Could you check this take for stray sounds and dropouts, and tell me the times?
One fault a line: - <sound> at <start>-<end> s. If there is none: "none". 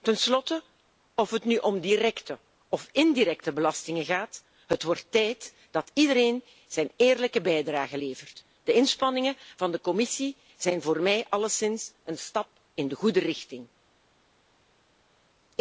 none